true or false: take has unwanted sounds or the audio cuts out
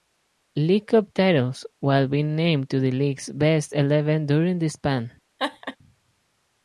true